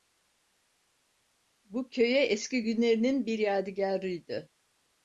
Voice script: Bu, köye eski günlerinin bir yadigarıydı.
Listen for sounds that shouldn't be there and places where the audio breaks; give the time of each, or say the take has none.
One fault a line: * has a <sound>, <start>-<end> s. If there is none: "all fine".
all fine